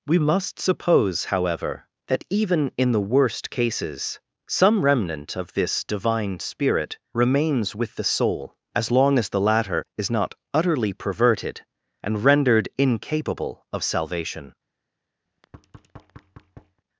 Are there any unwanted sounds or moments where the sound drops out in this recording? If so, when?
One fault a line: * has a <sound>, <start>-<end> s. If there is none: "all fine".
* has a thud, 15.3-16.8 s